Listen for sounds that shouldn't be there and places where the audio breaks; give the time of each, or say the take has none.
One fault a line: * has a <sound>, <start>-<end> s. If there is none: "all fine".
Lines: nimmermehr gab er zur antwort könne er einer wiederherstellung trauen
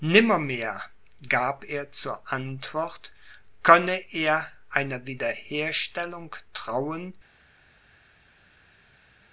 all fine